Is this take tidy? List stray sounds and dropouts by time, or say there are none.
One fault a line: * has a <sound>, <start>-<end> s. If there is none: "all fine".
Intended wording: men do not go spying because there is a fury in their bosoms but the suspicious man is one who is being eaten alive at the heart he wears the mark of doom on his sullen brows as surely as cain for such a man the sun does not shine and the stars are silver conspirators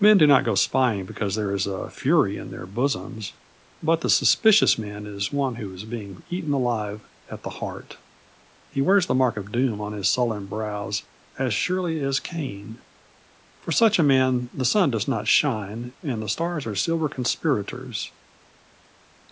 all fine